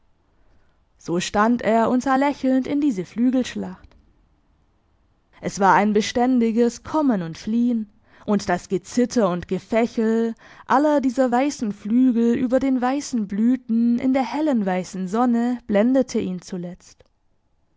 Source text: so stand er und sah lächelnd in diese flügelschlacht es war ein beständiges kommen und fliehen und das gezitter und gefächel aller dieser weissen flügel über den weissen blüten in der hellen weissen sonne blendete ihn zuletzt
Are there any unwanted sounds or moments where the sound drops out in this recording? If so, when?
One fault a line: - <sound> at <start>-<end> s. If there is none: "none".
none